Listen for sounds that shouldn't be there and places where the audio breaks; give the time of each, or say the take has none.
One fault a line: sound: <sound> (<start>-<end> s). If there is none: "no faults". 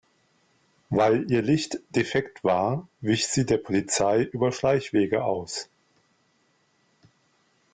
no faults